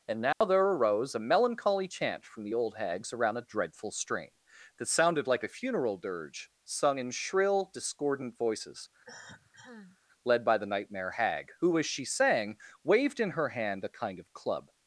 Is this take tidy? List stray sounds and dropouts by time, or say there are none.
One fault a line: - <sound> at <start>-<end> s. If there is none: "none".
- dropout at 0.3-0.4 s
- cough at 9.0-10.0 s